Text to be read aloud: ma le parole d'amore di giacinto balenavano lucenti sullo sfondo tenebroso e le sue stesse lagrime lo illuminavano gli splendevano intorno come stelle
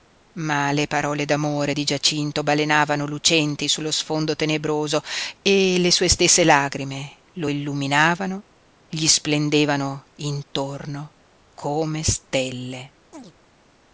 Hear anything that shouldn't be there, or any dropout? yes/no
yes